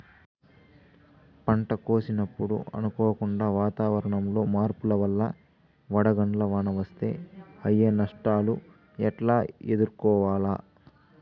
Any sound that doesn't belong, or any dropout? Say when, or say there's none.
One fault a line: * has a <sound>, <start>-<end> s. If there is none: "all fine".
all fine